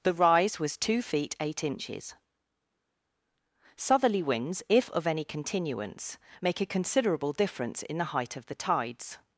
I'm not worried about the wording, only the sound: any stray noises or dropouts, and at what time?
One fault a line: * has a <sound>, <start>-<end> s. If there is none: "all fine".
all fine